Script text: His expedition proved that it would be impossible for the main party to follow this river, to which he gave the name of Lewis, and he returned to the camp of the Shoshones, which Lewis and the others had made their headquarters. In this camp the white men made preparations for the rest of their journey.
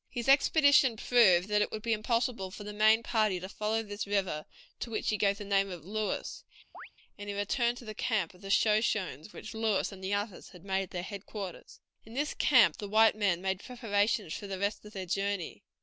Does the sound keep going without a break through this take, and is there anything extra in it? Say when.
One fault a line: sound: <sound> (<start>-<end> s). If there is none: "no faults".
sound: chirp (6.7-6.9 s)